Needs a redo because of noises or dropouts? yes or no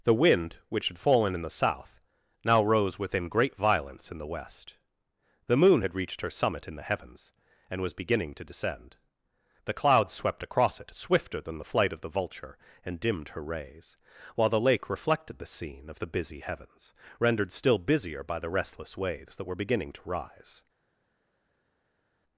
no